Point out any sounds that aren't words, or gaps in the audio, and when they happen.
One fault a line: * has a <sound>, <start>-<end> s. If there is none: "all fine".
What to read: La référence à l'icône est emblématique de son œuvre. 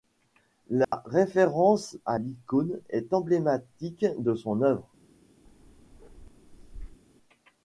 * has a dropout, 0.8-0.9 s
* has a bark, 5.4-7.0 s